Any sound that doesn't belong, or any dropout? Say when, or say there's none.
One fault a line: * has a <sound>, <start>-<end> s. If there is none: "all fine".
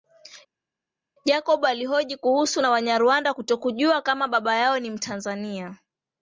all fine